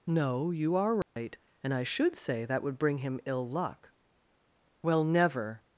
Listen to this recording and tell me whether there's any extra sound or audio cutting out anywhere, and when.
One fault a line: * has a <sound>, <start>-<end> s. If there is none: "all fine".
* has a dropout, 1.0-1.2 s